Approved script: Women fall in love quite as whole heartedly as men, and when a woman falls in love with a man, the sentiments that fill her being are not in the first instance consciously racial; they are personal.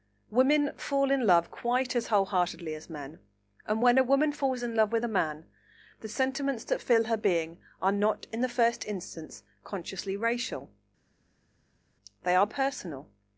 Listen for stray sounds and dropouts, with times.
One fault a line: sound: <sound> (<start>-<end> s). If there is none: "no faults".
no faults